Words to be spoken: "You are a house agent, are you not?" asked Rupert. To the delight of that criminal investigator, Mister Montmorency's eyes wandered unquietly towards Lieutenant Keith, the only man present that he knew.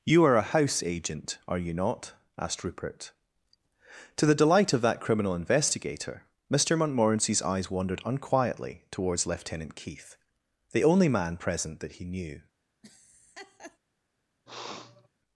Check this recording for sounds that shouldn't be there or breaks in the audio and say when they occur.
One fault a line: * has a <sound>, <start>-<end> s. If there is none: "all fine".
* has a laugh, 12.8-13.8 s
* has a sniff, 14.5-15.1 s